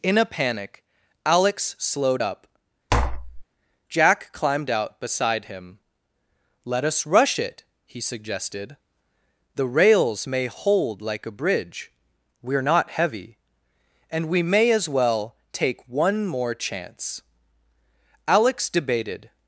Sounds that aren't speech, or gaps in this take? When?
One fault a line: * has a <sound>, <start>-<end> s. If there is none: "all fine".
* has a tap, 2.9-3.5 s